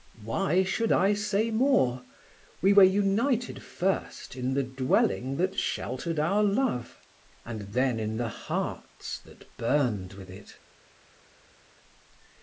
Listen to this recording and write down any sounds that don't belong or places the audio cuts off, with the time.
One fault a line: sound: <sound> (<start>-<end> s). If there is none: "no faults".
no faults